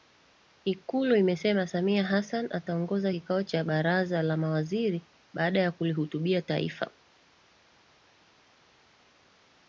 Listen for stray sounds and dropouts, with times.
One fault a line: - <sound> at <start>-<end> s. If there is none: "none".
none